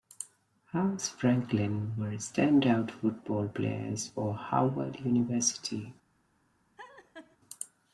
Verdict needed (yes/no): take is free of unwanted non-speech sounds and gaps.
no